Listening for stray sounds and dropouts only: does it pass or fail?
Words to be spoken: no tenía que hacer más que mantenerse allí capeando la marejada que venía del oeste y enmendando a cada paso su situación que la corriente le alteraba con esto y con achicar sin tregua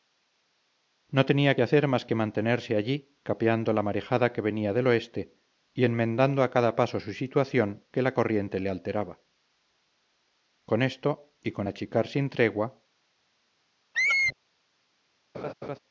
fail